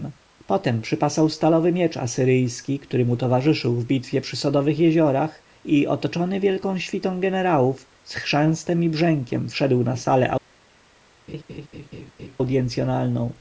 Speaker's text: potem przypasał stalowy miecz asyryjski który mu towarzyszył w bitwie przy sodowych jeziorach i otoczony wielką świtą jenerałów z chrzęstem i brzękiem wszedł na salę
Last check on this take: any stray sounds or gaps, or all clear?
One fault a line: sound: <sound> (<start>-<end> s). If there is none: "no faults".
sound: laugh (11.3-12.4 s)